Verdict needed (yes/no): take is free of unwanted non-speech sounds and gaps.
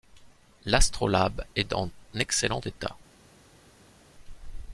yes